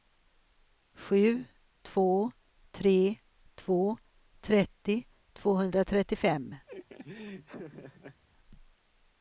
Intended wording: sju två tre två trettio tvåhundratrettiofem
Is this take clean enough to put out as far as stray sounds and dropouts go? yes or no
no